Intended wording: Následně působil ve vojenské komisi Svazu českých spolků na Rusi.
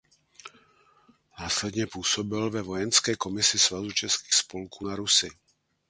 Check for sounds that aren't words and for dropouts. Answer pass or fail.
pass